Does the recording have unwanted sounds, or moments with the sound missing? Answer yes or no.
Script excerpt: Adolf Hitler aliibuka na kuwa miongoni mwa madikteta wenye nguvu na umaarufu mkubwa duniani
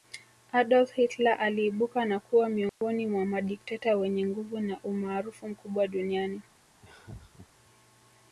yes